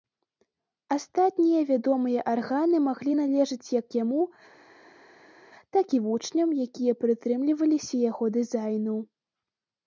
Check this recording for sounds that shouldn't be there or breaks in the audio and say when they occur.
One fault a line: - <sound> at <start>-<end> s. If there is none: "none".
none